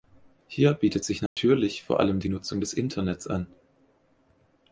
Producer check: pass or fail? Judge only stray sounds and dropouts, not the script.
fail